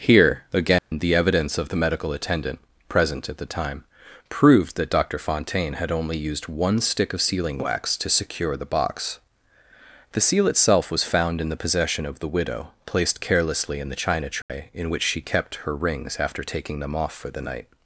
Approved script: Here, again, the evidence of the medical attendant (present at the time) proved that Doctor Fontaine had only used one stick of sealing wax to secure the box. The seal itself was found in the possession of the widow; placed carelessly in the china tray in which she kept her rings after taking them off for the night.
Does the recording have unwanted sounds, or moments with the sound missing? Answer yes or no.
yes